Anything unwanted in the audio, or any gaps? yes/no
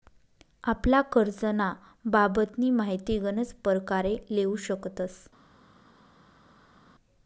no